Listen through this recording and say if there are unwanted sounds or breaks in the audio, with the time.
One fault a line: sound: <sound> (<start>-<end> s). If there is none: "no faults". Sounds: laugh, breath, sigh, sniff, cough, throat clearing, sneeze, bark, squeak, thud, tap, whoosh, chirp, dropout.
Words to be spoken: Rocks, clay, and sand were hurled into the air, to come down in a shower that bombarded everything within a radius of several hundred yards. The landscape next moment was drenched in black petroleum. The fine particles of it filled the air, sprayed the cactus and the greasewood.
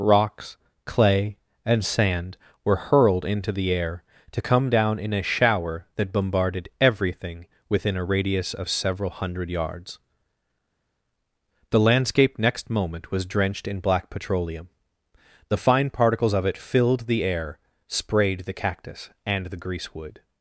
no faults